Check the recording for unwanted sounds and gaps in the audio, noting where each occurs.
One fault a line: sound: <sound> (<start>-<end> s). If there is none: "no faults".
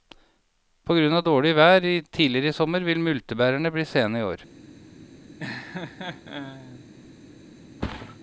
sound: laugh (5.4-6.9 s)
sound: thud (7.8-8.2 s)